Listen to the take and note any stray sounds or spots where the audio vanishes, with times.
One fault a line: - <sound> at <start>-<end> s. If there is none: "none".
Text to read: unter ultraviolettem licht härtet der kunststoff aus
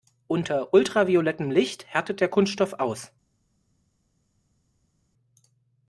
none